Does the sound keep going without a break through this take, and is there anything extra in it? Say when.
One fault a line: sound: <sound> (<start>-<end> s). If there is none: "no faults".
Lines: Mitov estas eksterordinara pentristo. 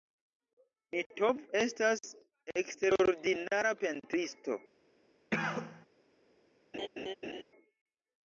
sound: cough (5.3-5.9 s)
sound: laugh (6.7-7.4 s)